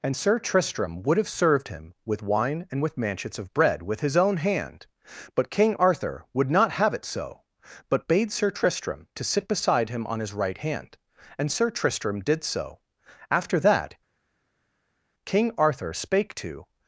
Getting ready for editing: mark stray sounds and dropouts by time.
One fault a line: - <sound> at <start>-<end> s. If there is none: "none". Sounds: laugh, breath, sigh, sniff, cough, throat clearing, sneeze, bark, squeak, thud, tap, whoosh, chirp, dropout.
none